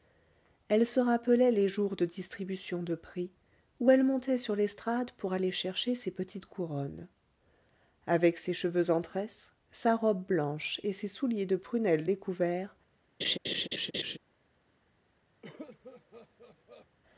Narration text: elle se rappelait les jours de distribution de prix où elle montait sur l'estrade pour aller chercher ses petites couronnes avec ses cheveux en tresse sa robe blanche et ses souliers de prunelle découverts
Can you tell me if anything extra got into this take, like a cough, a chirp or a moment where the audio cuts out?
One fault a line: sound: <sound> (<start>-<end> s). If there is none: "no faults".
sound: laugh (13.2-14.2 s)
sound: cough (15.4-16.9 s)